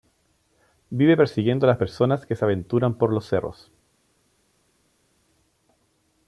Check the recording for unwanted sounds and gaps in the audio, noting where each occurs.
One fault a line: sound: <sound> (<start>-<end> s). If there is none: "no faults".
no faults